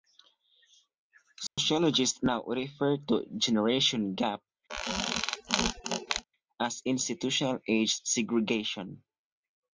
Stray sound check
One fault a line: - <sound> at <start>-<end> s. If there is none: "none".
- dropout at 1.5-1.6 s
- squeak at 4.7-6.2 s